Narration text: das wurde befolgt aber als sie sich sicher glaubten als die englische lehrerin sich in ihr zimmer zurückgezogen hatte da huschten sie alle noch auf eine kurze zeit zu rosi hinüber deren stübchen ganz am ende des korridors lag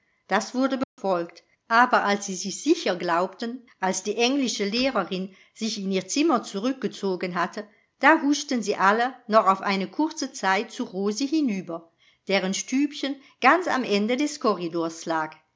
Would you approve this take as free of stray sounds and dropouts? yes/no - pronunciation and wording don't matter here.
no